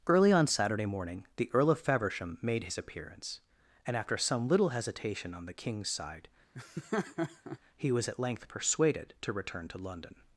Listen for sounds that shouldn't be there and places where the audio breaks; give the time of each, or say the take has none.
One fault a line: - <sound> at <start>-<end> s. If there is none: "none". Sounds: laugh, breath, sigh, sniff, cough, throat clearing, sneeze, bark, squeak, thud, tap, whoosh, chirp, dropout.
- laugh at 6.5-7.6 s